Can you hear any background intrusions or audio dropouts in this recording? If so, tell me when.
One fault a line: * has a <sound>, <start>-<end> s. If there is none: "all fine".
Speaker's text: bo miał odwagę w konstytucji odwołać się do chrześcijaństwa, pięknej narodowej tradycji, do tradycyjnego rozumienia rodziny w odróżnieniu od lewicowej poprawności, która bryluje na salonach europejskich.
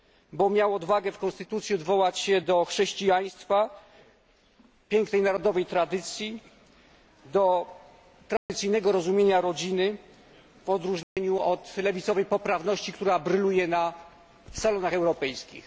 * has a dropout, 8.4-8.5 s
* has a dropout, 11.0-11.2 s